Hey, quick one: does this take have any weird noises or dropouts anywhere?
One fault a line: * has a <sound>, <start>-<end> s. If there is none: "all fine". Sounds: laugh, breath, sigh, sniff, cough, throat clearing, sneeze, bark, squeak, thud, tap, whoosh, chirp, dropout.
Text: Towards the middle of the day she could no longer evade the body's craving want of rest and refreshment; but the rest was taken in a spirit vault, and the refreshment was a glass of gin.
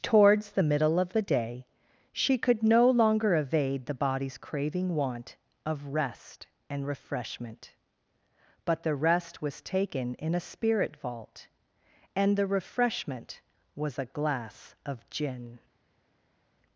all fine